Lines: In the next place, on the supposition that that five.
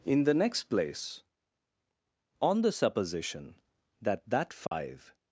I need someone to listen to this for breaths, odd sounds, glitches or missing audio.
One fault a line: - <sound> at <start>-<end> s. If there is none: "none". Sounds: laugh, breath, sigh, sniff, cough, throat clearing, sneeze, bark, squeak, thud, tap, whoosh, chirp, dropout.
- dropout at 4.7-4.7 s